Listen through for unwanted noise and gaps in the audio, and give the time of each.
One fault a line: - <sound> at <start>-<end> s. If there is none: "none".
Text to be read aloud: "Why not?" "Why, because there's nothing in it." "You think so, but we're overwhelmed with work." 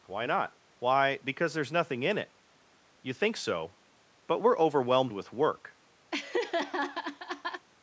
- laugh at 6.1-7.7 s